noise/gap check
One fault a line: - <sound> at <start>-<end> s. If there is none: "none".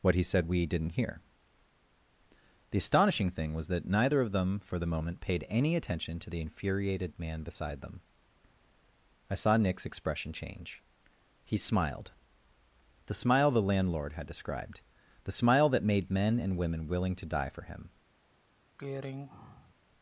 - throat clearing at 18.8-19.7 s